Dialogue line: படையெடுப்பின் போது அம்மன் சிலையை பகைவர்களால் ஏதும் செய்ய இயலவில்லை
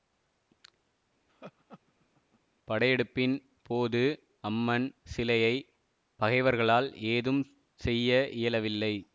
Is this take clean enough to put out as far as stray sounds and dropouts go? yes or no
no